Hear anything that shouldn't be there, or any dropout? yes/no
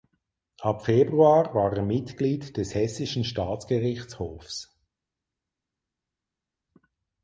no